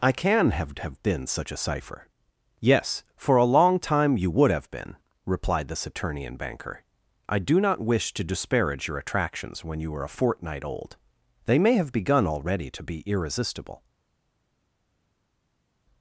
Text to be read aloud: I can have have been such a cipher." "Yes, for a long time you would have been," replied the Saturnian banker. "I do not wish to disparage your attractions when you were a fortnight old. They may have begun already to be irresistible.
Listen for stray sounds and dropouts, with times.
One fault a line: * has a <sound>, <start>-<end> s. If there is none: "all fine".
all fine